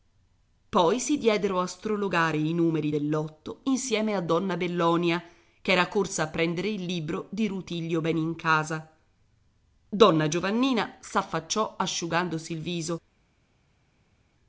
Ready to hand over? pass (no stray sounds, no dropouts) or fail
pass